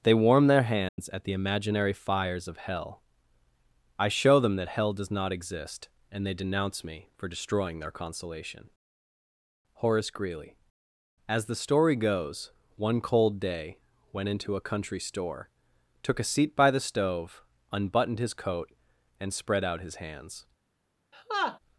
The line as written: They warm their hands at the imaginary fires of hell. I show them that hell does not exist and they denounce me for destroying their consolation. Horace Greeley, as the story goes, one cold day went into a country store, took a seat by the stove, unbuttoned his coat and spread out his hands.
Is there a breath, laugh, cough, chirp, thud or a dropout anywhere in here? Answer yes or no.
yes